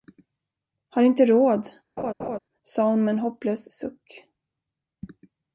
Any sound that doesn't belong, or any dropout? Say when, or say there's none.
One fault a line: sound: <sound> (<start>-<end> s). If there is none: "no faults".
sound: laugh (2.0-2.4 s)